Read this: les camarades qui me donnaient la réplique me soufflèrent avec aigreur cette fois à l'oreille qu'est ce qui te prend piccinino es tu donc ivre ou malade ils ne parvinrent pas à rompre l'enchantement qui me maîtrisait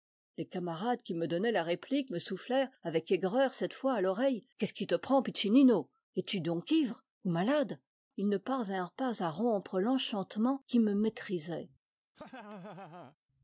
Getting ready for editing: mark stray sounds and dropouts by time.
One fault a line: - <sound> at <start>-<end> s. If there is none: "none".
- laugh at 12.1-13.2 s